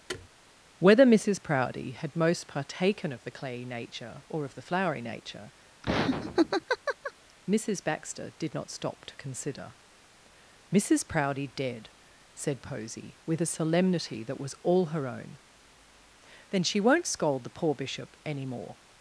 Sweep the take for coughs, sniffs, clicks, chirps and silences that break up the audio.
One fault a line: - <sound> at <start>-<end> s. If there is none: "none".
- thud at 0.1-0.3 s
- laugh at 5.8-7.1 s